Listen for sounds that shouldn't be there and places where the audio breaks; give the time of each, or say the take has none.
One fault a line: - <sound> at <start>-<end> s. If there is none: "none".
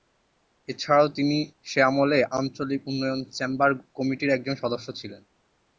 none